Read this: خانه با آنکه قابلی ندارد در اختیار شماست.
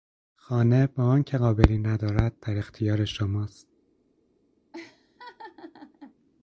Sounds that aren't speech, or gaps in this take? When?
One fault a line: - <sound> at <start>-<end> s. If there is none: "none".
- laugh at 4.7-6.2 s